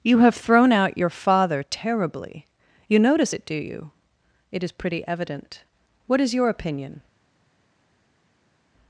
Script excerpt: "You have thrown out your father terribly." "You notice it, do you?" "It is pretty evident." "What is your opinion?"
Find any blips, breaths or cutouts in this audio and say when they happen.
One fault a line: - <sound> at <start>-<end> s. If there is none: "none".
none